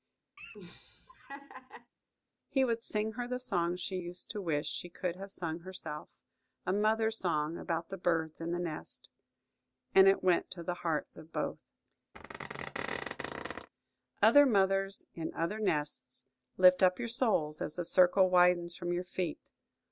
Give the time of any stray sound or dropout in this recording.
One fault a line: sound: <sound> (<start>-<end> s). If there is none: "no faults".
sound: laugh (0.4-1.9 s)
sound: squeak (12.1-13.7 s)